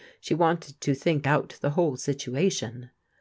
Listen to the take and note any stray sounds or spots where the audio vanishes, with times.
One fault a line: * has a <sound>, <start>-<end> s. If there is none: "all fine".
all fine